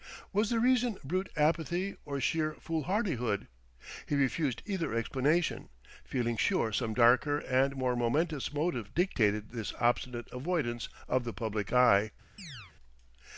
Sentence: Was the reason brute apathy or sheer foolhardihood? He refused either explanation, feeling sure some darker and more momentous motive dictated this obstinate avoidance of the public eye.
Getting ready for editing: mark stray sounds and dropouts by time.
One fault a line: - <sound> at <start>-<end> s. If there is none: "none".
- chirp at 12.4-12.7 s